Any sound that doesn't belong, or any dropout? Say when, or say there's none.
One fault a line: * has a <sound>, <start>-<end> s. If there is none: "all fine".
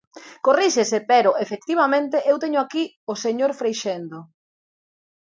all fine